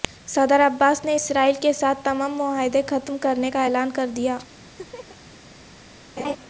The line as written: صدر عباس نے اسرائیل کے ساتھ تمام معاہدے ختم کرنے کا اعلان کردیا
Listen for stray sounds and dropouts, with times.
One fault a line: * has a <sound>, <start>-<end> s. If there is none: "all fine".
* has a laugh, 4.8-5.2 s
* has a laugh, 6.2-6.4 s